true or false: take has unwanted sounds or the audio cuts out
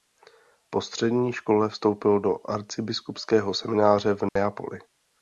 true